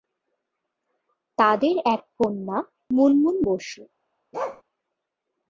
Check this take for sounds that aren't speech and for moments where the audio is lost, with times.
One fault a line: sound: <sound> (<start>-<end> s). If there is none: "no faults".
sound: bark (4.3-4.6 s)